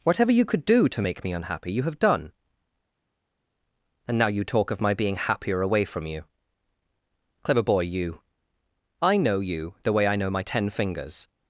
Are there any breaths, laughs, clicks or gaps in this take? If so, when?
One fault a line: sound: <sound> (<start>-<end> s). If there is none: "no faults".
no faults